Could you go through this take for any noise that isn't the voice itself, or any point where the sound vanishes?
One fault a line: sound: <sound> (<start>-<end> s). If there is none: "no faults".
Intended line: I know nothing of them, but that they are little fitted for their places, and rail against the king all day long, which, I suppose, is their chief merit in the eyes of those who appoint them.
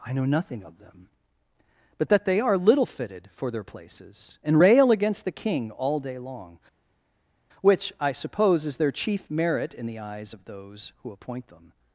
no faults